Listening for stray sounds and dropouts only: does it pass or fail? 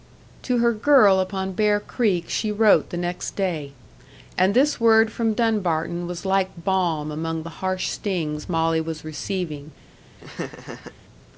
fail